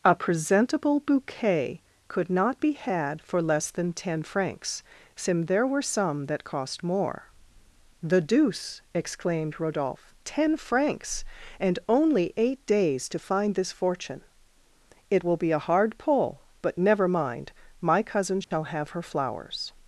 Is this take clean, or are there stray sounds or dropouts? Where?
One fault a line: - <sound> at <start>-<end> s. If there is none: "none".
- dropout at 18.4-18.5 s